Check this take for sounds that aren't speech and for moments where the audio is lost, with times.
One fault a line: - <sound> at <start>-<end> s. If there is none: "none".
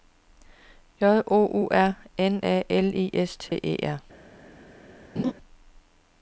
- dropout at 3.5-3.5 s
- laugh at 5.2-5.3 s